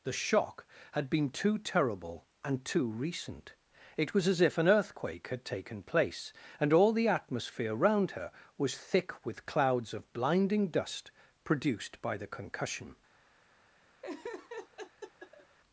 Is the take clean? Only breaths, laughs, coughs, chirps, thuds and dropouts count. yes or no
no